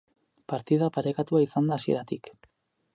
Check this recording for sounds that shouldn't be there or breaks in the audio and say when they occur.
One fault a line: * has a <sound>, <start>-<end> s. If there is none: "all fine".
all fine